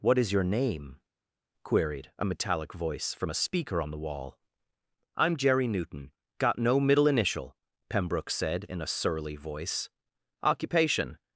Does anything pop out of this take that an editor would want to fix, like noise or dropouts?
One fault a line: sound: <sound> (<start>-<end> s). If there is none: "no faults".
no faults